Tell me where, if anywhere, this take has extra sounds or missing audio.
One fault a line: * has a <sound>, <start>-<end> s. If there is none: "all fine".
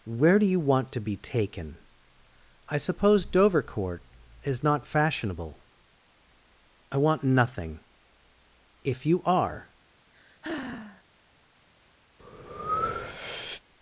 * has a sigh, 10.1-11.0 s
* has a breath, 12.2-13.6 s